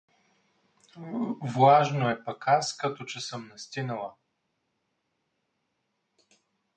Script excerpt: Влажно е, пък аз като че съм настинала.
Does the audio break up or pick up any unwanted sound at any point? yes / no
no